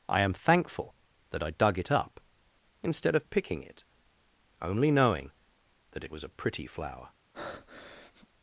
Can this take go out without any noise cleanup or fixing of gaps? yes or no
no